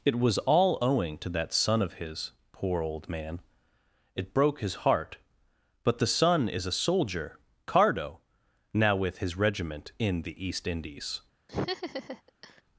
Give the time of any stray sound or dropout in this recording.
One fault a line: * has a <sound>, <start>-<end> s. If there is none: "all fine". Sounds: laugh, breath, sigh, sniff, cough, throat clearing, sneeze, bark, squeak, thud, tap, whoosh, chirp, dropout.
* has a laugh, 11.5-12.6 s